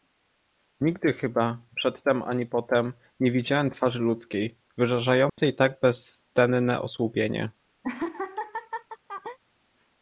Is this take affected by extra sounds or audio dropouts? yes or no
yes